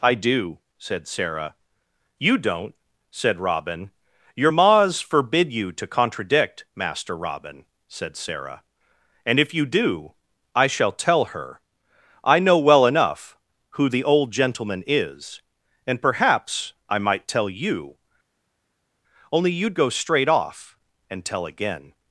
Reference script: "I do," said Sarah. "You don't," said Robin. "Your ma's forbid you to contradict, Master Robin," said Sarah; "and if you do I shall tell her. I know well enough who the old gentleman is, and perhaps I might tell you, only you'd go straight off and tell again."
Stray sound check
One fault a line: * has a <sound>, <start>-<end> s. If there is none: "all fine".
all fine